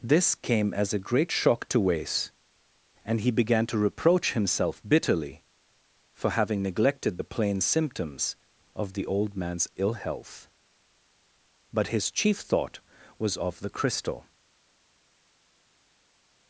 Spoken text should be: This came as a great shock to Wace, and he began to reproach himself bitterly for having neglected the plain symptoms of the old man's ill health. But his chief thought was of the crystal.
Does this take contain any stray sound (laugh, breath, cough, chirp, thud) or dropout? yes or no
no